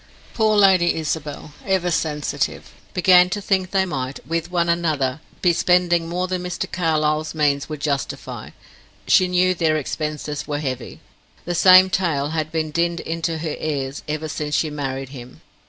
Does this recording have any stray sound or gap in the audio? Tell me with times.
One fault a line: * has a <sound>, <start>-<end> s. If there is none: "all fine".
all fine